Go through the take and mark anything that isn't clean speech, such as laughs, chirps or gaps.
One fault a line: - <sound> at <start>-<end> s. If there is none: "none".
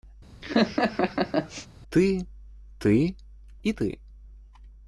- laugh at 0.4-1.7 s